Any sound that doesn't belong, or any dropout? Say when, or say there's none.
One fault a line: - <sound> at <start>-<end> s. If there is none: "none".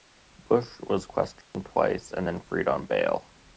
- dropout at 1.4-1.5 s